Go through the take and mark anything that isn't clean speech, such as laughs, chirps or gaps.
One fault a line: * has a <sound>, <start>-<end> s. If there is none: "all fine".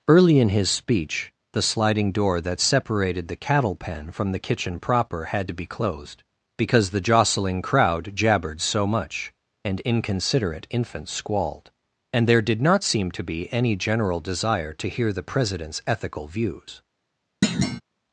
* has a thud, 17.4-17.8 s